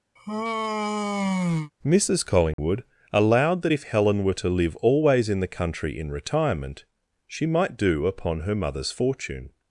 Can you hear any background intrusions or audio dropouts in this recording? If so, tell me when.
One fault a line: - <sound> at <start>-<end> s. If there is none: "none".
- sigh at 0.2-1.7 s
- dropout at 2.5-2.6 s